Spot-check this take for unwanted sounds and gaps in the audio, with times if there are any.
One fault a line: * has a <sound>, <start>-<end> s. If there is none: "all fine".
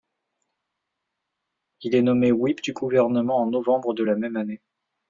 all fine